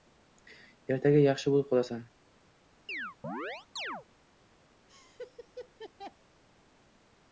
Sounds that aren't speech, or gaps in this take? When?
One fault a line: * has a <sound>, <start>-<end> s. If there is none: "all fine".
* has a chirp, 2.9-4.1 s
* has a laugh, 4.9-6.2 s